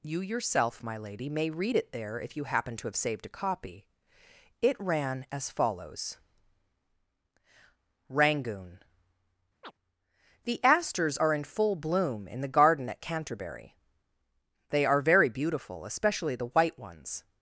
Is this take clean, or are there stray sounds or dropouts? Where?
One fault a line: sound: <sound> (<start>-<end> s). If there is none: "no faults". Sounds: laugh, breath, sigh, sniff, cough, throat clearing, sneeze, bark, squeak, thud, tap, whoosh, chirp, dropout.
sound: chirp (9.6-9.7 s)